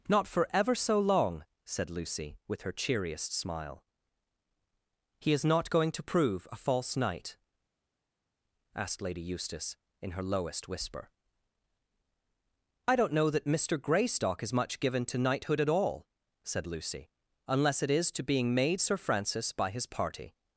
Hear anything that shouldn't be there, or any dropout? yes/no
no